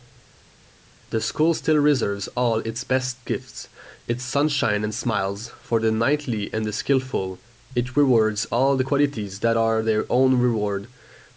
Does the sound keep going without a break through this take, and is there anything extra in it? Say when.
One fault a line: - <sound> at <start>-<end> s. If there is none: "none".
none